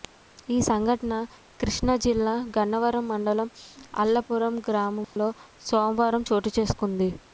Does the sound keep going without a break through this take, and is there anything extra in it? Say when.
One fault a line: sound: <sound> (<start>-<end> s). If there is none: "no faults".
sound: dropout (5.0-5.2 s)